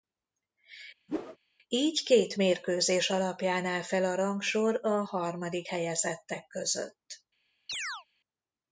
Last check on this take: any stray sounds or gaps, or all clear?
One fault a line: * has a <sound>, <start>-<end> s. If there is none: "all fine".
* has a whoosh, 1.1-1.4 s
* has a chirp, 7.7-8.1 s